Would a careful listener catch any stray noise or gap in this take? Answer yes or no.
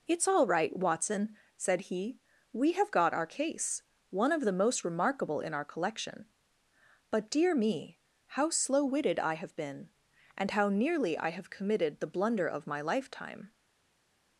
no